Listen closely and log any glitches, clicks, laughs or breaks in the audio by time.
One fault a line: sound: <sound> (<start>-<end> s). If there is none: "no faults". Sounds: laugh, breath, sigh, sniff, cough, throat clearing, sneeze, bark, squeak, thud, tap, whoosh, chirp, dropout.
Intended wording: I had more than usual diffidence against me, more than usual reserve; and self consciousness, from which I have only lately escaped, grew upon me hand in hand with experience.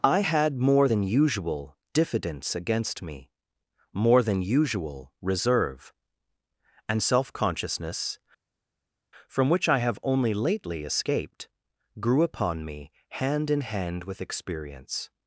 no faults